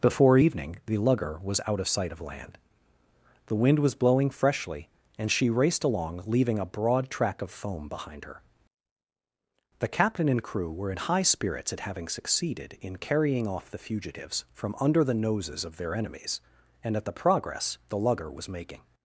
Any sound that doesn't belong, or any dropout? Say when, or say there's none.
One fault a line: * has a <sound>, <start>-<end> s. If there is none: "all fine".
all fine